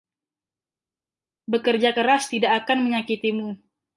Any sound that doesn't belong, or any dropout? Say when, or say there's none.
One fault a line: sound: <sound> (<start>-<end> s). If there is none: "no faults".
no faults